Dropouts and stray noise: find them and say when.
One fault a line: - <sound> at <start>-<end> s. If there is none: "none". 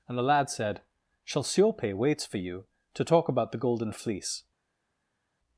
none